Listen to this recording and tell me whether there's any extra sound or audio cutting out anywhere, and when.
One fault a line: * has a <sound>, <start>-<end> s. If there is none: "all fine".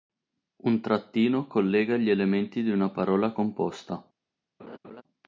* has a laugh, 4.6-5.0 s